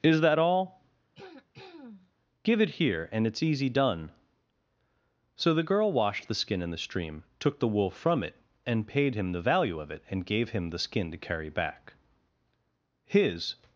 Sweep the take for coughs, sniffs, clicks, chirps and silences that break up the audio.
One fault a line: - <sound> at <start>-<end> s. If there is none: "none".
- throat clearing at 1.1-2.1 s